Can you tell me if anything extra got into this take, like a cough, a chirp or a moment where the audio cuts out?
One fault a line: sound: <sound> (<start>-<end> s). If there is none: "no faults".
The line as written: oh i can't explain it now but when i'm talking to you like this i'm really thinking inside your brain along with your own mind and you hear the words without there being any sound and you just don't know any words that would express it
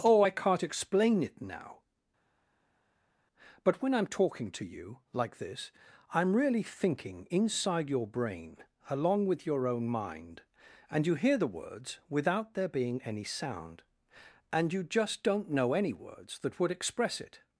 no faults